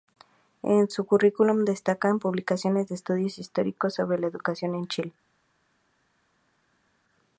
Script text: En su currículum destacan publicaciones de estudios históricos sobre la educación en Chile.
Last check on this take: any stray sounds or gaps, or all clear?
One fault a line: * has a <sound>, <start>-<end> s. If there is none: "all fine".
all fine